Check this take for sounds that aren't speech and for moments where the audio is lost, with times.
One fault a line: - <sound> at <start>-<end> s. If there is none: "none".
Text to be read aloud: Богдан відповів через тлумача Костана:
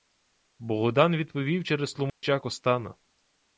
- dropout at 2.1-2.2 s